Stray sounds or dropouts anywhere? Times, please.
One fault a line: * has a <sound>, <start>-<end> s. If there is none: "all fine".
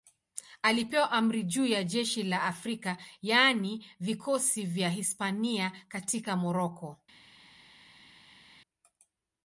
all fine